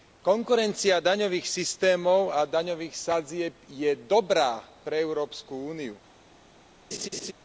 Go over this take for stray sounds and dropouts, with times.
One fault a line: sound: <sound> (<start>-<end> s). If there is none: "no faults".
sound: laugh (6.9-7.3 s)